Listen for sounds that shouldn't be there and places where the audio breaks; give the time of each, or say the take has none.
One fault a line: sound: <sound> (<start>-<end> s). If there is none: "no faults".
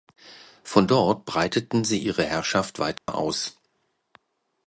sound: dropout (3.0-3.1 s)